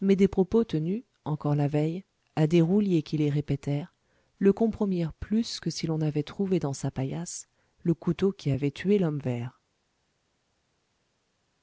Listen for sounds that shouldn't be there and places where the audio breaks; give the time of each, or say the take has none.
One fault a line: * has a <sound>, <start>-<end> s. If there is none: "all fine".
all fine